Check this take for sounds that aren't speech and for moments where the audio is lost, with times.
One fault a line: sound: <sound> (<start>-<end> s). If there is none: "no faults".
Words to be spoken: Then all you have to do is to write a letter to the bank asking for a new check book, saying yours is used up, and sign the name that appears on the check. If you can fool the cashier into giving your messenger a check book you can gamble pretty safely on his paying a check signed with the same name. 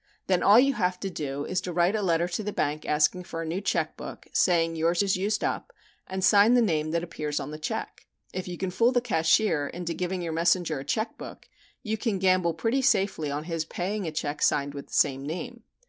no faults